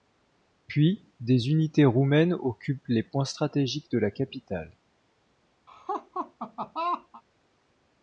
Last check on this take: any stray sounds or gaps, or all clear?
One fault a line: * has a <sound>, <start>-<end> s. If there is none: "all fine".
* has a laugh, 5.7-7.2 s